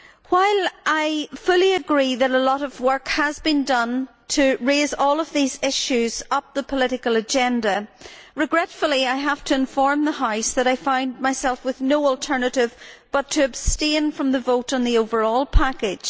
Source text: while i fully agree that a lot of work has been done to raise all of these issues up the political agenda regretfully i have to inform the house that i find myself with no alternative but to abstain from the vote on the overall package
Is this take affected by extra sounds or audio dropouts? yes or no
no